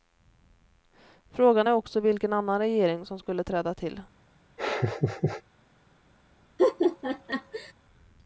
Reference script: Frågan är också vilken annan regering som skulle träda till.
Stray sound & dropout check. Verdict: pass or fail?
fail